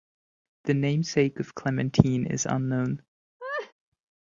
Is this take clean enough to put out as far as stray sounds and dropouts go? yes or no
no